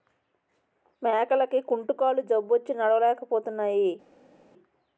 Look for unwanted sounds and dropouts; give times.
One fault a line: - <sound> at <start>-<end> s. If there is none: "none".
none